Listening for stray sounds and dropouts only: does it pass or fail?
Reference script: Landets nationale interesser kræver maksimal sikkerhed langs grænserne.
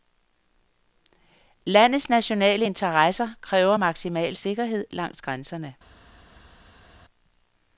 pass